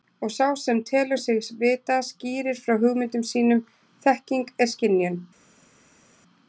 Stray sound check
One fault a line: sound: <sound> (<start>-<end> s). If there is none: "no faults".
no faults